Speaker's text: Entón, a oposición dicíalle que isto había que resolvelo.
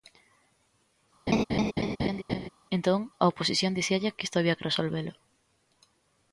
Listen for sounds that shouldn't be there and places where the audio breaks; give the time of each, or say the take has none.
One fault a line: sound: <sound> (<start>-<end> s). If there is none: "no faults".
sound: laugh (1.3-2.5 s)